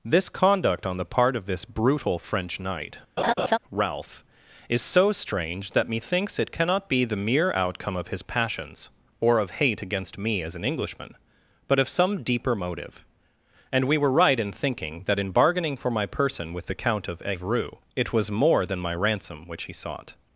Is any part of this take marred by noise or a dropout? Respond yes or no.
yes